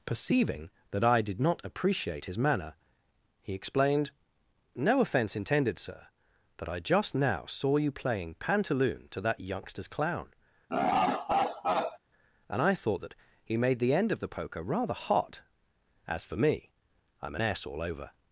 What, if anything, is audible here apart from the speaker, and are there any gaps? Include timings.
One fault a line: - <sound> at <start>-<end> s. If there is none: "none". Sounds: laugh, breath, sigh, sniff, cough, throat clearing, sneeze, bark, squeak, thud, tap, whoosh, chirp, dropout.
- laugh at 10.7-12.0 s